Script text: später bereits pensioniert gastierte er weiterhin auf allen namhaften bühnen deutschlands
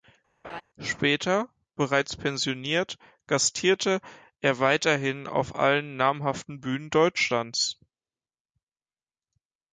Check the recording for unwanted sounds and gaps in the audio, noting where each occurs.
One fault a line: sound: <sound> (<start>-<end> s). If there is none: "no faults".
sound: laugh (0.4-0.6 s)